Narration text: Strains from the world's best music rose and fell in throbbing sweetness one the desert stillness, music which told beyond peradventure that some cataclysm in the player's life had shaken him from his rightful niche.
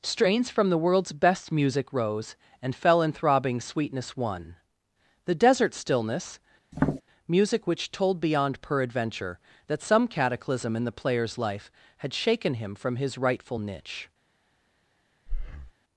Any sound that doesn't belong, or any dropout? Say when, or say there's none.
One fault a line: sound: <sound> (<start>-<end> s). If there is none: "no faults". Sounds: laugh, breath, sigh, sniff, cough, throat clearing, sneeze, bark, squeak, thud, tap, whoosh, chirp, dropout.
sound: tap (6.7-7.0 s)
sound: breath (15.3-15.7 s)